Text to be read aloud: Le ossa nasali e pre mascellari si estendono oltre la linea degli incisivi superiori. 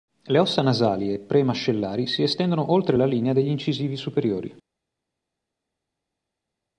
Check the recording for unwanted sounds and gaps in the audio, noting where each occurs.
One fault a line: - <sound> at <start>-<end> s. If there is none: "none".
none